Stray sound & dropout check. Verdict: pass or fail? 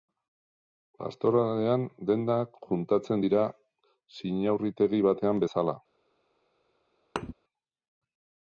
fail